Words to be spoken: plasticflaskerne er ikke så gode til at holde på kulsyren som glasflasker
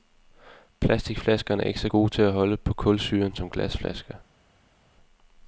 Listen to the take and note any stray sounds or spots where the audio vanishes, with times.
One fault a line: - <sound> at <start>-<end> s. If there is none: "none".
none